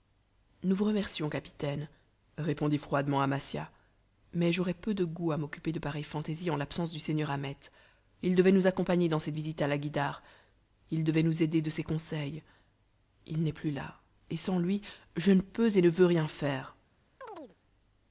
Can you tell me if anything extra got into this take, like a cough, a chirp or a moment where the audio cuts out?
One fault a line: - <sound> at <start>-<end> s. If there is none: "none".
- chirp at 17.2-17.6 s